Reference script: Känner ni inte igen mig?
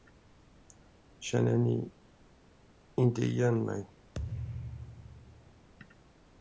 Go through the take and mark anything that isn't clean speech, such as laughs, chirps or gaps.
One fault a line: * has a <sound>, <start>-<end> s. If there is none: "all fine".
* has a thud, 4.1-5.7 s